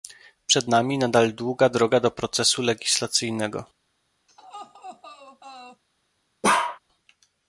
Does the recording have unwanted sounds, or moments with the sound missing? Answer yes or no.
yes